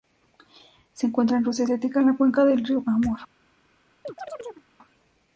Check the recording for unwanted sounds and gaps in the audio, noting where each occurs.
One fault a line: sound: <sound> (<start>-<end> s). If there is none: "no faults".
sound: chirp (4.0-4.7 s)